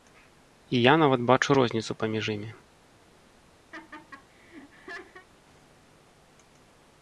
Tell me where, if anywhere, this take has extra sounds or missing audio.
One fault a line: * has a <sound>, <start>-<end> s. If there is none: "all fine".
* has a laugh, 3.7-5.3 s